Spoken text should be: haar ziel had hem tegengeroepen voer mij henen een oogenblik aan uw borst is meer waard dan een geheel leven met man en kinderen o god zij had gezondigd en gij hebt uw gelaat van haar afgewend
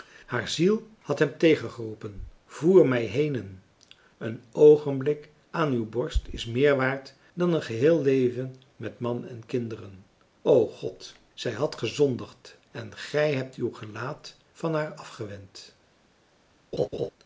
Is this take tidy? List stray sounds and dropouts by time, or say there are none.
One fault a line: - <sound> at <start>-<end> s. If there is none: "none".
- laugh at 16.7-17.1 s